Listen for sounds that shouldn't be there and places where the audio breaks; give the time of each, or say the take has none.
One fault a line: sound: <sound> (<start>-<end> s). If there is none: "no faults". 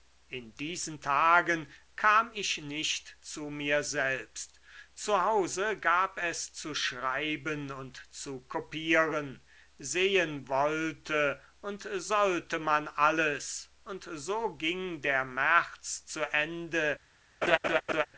sound: laugh (17.4-18.1 s)